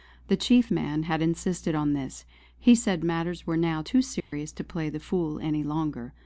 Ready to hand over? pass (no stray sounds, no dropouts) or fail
fail